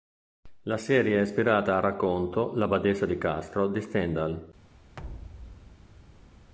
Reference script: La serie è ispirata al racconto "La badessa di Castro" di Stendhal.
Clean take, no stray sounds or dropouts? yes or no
no